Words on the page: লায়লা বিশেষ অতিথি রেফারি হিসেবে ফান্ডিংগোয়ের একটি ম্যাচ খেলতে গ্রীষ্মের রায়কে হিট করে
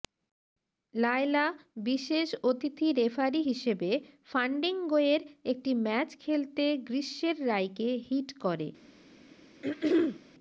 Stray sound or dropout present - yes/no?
yes